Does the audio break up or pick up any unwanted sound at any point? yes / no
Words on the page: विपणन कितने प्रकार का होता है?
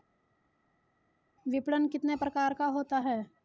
no